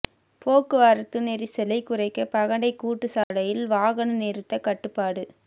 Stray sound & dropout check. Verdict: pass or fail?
fail